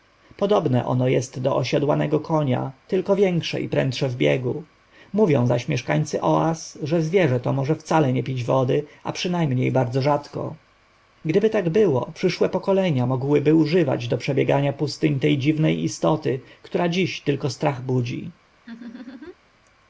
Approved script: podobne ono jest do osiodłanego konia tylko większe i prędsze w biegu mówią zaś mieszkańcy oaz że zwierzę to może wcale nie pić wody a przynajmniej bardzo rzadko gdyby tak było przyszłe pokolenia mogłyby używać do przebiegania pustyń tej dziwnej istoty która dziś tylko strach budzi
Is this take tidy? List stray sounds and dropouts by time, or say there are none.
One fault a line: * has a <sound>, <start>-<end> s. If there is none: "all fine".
* has a laugh, 18.6-19.3 s